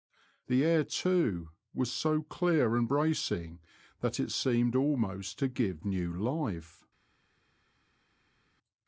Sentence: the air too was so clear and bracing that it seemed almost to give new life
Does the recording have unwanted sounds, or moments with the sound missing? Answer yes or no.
no